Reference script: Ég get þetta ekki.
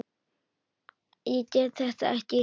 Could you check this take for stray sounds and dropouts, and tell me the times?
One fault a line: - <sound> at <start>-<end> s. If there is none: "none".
none